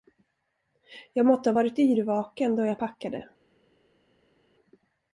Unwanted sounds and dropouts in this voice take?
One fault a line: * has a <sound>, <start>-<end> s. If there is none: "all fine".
all fine